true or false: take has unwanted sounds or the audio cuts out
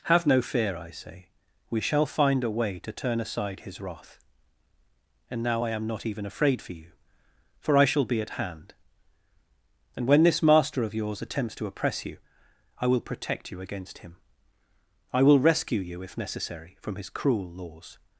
false